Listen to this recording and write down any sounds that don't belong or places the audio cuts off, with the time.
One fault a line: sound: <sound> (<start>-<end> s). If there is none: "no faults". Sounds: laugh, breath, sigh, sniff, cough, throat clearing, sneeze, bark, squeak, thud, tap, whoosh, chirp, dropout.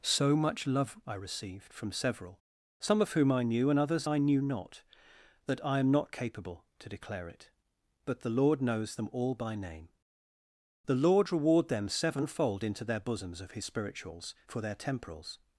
no faults